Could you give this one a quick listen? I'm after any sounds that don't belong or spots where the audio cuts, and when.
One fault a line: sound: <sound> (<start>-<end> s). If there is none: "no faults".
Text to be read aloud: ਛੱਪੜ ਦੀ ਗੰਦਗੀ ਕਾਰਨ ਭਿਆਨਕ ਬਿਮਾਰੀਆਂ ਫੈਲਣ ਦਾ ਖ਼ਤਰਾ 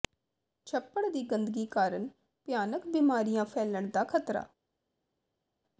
no faults